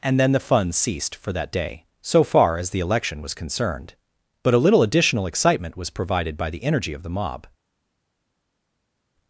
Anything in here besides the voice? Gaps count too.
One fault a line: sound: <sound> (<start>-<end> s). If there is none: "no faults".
no faults